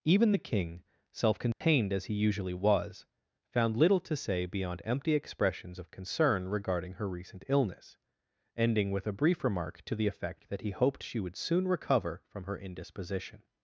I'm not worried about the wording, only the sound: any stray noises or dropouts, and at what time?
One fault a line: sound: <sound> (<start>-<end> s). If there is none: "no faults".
sound: dropout (1.5-1.6 s)